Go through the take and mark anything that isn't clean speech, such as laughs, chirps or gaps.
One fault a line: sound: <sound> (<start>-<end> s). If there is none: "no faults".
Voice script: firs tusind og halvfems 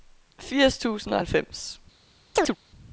sound: chirp (2.4-2.6 s)